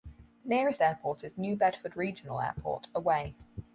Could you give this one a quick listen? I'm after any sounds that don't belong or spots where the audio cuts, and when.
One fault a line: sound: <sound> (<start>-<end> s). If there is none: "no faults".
no faults